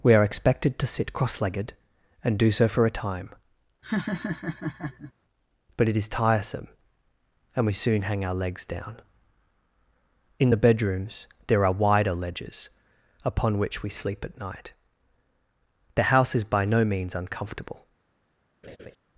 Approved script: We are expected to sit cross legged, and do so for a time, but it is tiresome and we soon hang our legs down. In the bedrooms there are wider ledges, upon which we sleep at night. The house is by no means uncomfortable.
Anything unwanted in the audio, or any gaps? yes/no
yes